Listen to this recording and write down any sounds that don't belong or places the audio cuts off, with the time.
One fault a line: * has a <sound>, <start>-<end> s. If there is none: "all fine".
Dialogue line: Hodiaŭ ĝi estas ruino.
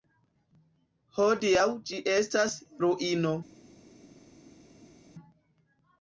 all fine